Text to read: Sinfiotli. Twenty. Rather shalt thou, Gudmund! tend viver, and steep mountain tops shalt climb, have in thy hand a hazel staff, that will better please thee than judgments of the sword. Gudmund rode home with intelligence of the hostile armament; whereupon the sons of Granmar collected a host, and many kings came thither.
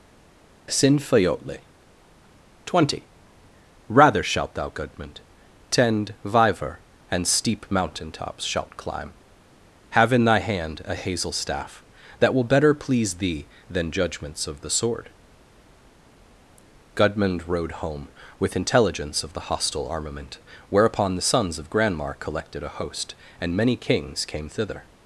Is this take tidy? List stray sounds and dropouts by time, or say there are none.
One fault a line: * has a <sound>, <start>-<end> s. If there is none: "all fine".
all fine